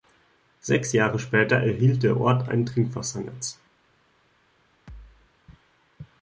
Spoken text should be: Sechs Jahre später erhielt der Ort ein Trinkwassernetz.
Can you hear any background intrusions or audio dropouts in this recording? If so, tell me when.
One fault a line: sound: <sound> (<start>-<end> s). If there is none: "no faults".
sound: thud (4.9-5.3 s)